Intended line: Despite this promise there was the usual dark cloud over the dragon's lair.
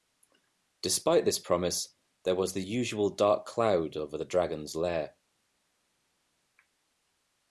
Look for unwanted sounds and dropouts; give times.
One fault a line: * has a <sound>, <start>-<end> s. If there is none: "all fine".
all fine